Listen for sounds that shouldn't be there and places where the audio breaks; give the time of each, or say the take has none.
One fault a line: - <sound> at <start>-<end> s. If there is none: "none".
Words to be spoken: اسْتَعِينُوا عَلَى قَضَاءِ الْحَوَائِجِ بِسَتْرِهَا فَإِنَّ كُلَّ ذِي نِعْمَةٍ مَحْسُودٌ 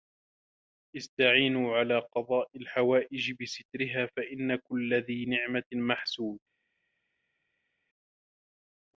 none